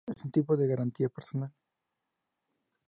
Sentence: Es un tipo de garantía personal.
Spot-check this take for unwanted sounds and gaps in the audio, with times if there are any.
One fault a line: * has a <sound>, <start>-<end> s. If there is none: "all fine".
all fine